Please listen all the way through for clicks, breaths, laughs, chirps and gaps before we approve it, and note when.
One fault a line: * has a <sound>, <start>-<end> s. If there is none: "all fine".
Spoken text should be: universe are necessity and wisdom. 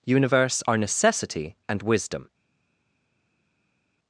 all fine